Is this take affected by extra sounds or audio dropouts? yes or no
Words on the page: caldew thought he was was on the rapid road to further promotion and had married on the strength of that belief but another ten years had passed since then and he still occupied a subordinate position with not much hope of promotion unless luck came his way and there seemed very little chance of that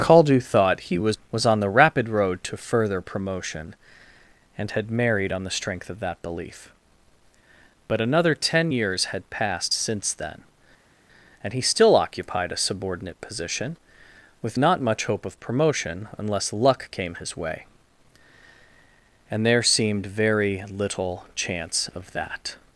no